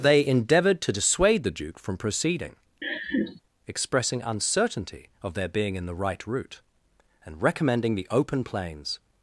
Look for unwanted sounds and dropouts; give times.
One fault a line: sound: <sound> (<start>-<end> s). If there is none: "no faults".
sound: laugh (2.8-3.4 s)